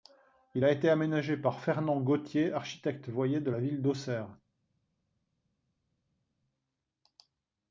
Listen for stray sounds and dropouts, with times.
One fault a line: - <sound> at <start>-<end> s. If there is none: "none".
none